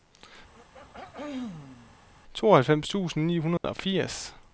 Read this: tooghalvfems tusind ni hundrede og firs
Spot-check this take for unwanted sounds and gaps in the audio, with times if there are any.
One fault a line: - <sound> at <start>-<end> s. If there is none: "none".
- throat clearing at 0.5-2.0 s
- dropout at 3.6-3.6 s